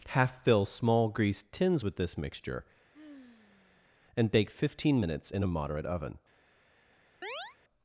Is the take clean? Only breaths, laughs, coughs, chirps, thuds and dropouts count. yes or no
no